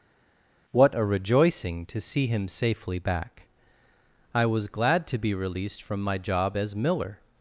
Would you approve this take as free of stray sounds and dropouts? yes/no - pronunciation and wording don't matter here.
yes